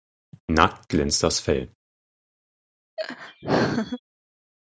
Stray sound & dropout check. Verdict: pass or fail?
fail